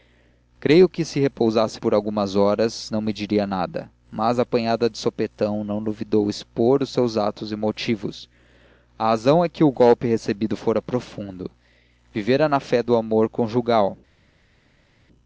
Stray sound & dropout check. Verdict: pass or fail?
pass